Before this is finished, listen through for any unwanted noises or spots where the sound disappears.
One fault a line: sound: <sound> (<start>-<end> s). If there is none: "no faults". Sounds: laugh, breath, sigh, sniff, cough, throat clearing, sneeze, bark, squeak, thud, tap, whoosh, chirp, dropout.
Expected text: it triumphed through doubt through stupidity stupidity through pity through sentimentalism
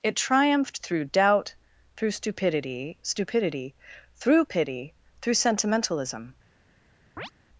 sound: chirp (7.2-7.3 s)